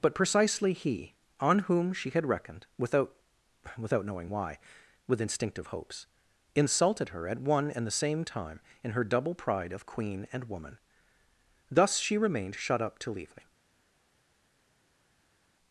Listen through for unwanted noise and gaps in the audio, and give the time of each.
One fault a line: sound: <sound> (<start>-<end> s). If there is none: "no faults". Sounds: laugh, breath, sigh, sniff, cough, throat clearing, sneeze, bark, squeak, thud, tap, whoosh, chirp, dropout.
no faults